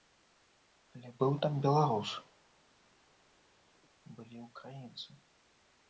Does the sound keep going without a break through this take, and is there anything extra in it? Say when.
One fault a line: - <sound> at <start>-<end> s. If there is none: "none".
none